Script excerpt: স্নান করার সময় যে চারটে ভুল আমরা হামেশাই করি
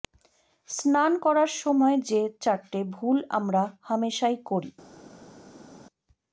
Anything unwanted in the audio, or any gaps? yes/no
no